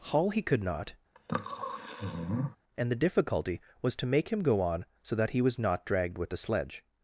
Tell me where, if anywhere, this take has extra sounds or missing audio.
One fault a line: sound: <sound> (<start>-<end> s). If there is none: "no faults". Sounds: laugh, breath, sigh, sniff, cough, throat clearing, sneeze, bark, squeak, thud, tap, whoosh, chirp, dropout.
sound: sniff (1.2-2.6 s)